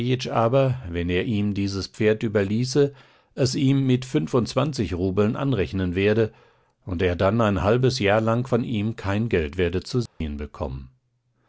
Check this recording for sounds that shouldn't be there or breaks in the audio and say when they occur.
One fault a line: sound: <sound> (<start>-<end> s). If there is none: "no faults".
sound: dropout (10.1-10.2 s)